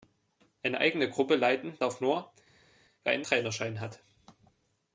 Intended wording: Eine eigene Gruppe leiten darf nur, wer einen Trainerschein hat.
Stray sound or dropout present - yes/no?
no